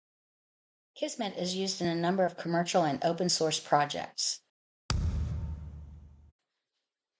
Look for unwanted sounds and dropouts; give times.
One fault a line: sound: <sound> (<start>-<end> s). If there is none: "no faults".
sound: thud (4.9-6.3 s)